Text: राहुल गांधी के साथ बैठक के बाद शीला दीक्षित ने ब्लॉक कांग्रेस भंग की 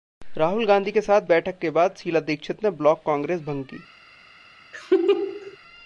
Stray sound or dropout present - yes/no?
yes